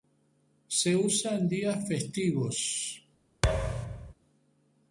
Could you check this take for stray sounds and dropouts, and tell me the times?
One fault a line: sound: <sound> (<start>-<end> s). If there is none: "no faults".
sound: thud (3.4-4.1 s)